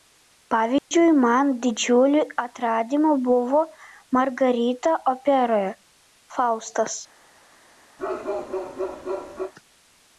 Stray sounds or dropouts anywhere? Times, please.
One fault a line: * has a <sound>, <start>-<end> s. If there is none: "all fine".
* has a dropout, 0.8-0.9 s
* has a bark, 8.0-9.5 s